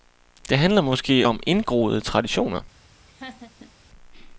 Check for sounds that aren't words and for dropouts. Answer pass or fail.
fail